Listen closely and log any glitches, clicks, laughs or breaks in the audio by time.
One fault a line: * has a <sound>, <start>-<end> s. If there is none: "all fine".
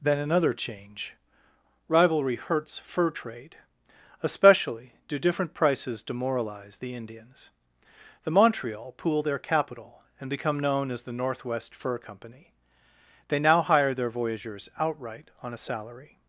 all fine